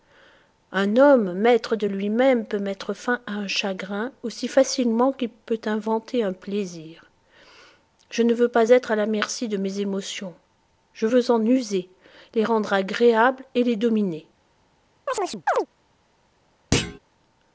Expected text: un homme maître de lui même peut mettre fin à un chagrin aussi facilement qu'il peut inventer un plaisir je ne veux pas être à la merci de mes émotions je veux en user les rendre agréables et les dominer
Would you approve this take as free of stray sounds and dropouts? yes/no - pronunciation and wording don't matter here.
no